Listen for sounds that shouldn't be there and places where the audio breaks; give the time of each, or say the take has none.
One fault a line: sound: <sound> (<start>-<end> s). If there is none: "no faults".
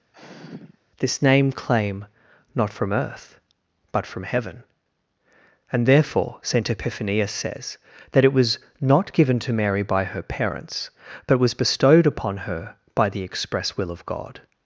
sound: sigh (0.1-0.8 s)